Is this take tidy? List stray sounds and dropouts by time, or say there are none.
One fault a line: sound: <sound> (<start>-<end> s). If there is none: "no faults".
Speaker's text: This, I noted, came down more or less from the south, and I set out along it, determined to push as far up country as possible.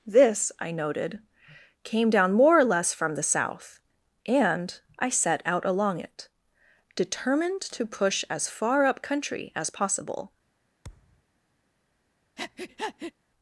sound: thud (10.8-11.2 s)
sound: breath (12.4-13.1 s)